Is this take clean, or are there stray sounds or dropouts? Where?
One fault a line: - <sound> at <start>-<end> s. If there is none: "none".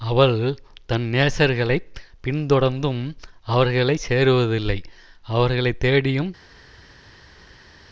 none